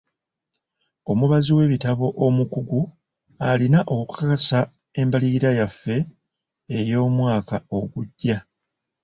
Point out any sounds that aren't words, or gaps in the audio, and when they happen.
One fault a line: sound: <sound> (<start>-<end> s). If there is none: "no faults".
no faults